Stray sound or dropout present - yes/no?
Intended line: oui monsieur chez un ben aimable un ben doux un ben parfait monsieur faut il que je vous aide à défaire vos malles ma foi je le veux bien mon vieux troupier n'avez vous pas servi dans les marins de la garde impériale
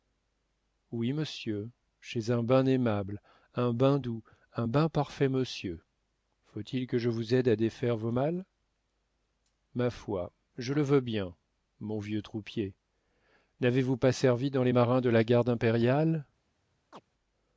yes